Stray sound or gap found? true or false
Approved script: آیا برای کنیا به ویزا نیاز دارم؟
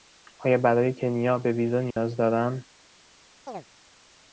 true